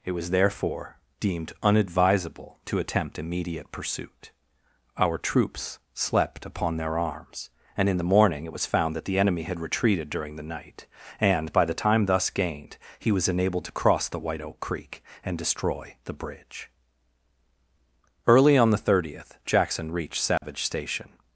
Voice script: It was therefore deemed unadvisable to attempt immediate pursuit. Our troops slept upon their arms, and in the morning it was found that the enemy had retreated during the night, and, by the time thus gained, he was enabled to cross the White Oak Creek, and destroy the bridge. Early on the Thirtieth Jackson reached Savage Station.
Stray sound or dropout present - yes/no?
yes